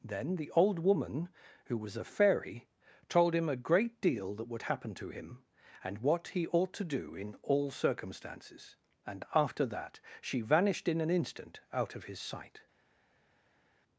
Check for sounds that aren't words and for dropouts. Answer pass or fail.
pass